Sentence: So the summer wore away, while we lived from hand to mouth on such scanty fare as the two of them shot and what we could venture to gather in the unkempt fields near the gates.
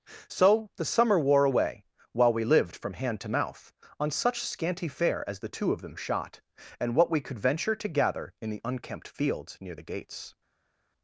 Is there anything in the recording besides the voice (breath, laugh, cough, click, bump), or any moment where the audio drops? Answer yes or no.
no